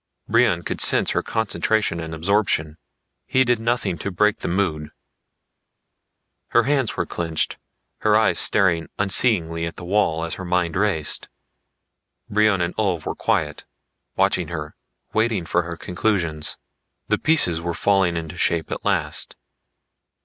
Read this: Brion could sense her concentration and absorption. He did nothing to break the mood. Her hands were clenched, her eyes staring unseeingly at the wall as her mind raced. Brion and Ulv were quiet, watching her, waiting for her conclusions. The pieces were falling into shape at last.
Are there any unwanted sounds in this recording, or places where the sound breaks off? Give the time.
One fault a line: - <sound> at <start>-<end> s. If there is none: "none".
none